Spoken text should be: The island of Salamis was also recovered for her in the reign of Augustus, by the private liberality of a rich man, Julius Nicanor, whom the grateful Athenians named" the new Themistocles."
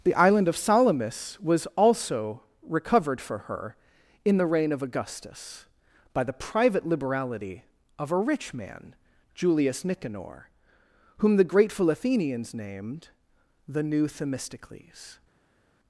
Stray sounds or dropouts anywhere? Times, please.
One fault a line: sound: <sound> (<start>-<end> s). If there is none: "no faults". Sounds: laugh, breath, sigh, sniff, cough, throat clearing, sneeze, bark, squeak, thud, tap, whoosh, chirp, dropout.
no faults